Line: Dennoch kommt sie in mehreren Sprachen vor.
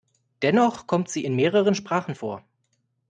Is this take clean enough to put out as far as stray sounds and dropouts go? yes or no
yes